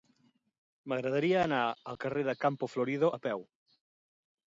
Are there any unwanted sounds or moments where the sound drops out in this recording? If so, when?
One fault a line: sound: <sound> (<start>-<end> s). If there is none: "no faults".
no faults